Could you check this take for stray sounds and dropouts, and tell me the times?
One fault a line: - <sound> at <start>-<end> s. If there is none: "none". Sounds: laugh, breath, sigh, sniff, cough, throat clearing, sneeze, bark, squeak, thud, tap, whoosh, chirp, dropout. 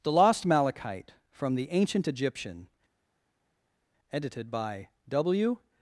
none